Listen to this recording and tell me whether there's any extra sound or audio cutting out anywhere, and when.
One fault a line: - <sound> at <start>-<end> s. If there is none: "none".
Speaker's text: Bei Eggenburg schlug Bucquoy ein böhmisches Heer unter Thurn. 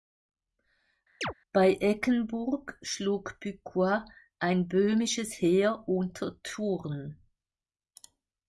- chirp at 1.2-1.3 s